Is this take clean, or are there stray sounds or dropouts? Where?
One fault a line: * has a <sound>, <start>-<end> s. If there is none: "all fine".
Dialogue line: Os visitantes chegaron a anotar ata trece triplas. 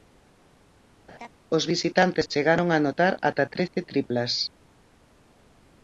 * has a laugh, 1.1-1.3 s